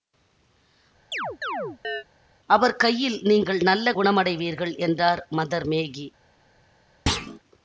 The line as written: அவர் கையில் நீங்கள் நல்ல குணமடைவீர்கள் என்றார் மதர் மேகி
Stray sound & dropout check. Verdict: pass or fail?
fail